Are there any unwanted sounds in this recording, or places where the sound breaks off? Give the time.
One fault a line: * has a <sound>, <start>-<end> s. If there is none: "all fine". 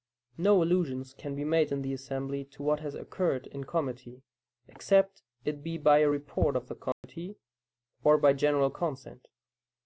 * has a dropout, 6.9-7.0 s